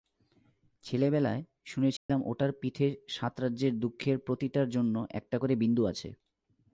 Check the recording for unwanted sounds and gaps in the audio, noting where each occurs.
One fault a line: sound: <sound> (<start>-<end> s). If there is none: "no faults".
sound: dropout (2.0-2.1 s)